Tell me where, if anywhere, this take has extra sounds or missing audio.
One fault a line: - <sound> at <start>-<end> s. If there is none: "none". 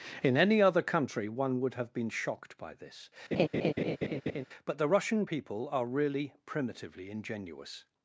- laugh at 3.3-4.4 s